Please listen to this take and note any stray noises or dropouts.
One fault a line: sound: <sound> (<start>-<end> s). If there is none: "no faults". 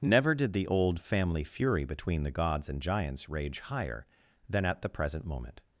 no faults